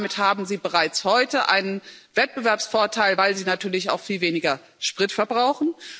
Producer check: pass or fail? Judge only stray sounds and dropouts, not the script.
pass